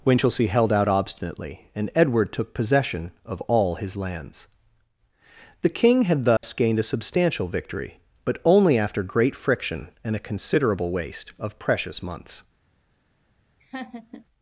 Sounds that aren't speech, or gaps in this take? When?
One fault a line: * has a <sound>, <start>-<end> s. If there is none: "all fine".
* has a dropout, 6.4-6.4 s
* has a laugh, 13.6-14.2 s